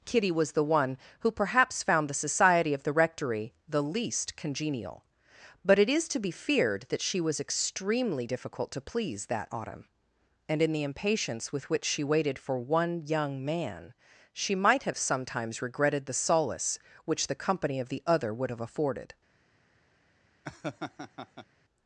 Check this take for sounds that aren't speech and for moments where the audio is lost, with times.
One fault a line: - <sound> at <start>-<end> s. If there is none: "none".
- laugh at 20.4-21.5 s